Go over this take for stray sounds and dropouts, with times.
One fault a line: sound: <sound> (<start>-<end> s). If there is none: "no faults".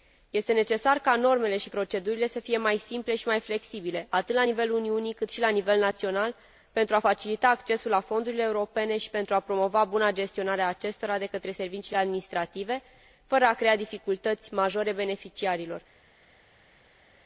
no faults